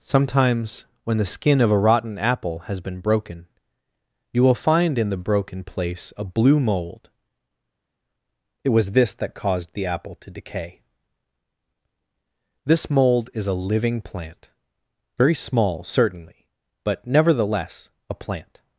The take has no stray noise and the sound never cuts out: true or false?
true